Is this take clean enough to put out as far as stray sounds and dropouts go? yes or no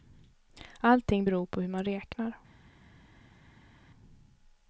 yes